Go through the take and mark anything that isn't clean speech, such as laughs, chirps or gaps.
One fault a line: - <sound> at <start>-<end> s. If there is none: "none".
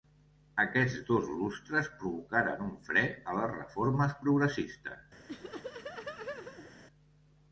- laugh at 5.3-6.7 s